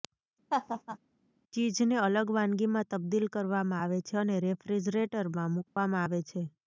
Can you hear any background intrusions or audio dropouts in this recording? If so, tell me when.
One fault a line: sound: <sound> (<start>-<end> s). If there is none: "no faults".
sound: laugh (0.5-1.0 s)
sound: dropout (5.7-5.8 s)